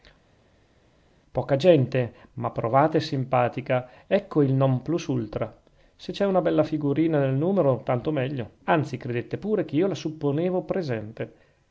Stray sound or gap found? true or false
false